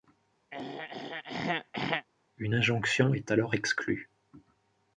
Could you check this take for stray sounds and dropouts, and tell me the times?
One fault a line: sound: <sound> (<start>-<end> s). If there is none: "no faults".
sound: throat clearing (0.5-2.1 s)